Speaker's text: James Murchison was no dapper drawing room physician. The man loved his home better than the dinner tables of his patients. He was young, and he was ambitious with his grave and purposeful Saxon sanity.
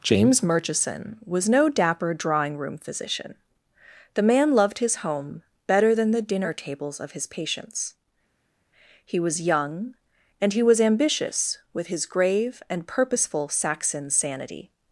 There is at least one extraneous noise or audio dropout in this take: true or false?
false